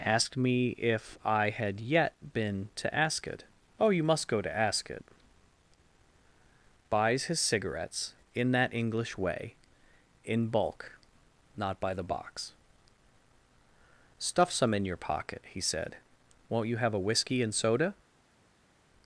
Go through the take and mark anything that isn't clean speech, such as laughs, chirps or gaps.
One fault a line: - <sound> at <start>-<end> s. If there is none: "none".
none